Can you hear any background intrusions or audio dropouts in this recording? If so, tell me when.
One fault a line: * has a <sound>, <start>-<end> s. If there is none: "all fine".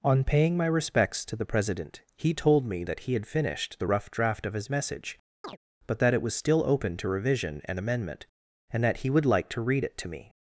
* has a chirp, 5.4-5.6 s